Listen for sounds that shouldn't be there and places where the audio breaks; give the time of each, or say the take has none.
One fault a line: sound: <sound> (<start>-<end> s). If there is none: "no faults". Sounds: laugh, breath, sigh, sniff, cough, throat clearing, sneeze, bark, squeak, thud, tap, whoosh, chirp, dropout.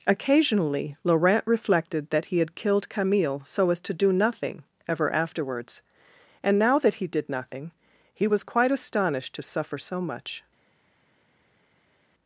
no faults